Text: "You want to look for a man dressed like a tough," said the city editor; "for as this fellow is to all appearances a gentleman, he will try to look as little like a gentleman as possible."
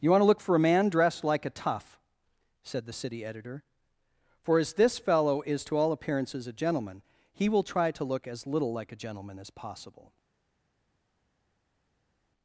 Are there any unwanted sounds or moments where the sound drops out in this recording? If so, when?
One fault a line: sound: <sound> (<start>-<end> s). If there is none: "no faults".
no faults